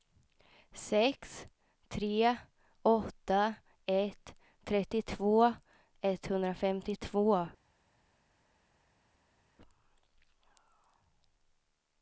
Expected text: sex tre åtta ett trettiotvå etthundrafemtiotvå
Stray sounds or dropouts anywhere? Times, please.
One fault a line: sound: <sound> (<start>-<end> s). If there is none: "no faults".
no faults